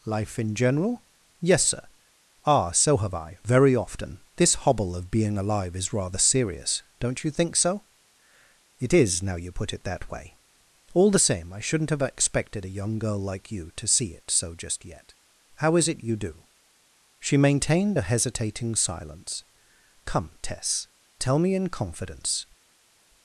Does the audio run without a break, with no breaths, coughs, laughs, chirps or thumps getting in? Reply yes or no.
yes